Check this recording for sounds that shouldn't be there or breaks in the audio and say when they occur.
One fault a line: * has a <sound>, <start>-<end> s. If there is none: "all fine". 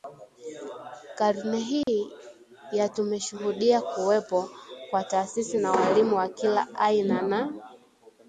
* has a dropout, 1.8-1.9 s